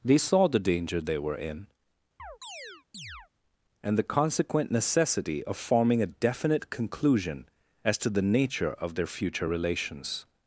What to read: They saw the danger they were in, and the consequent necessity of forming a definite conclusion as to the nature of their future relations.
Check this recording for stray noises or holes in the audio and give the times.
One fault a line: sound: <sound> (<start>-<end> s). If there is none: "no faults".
sound: chirp (2.2-3.3 s)